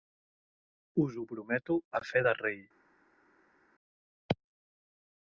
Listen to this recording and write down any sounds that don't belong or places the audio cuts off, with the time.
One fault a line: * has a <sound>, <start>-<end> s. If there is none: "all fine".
all fine